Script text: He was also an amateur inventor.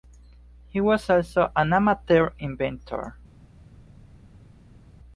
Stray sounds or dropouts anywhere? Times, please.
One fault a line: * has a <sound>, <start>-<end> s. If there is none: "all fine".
all fine